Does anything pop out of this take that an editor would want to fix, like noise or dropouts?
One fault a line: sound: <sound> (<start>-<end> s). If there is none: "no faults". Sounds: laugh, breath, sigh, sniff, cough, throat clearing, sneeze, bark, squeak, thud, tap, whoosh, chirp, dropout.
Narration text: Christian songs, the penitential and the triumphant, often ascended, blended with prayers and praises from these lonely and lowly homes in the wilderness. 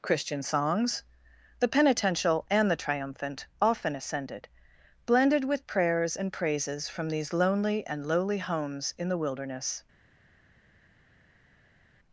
no faults